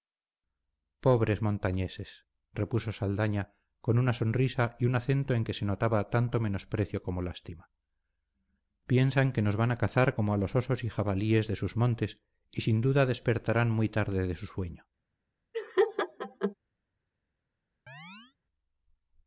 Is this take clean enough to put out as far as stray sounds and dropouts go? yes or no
no